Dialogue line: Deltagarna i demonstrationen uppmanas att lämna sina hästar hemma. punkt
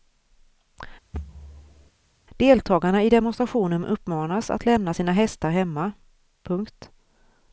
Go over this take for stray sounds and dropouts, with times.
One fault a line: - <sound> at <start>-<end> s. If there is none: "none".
- thud at 1.1-1.9 s